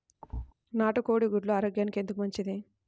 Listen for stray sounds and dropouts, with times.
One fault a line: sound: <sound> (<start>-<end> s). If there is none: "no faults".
sound: thud (0.2-0.5 s)